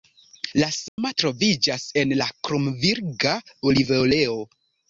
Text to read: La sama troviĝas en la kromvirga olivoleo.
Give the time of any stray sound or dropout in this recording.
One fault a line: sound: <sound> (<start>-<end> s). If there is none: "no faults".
sound: dropout (0.9-1.0 s)